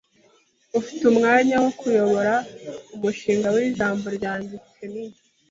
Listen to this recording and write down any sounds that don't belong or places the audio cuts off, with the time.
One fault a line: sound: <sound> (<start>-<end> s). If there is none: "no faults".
no faults